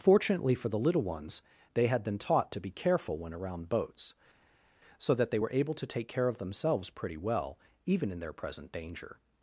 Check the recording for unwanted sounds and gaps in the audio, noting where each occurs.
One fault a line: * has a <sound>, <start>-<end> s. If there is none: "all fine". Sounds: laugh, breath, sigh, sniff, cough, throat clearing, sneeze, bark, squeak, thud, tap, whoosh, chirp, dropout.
all fine